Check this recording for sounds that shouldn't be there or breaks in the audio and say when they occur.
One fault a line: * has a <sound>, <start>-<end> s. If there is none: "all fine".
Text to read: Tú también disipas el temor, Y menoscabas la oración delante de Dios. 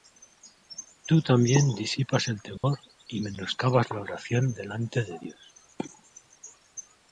* has a dropout, 2.6-2.6 s